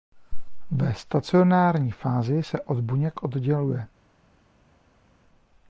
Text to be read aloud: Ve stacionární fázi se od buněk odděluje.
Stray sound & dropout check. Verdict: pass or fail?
pass